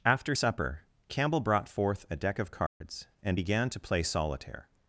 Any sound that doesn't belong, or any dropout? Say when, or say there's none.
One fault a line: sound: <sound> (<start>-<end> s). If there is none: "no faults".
sound: dropout (2.7-2.8 s)